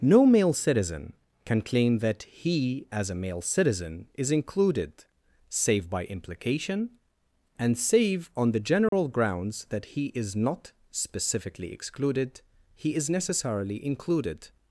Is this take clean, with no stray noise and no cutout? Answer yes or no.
no